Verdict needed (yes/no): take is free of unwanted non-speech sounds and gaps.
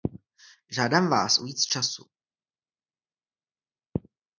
yes